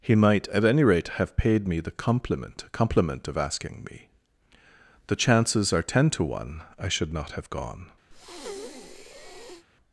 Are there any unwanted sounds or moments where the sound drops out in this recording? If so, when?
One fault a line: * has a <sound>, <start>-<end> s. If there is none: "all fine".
* has a breath, 8.1-9.7 s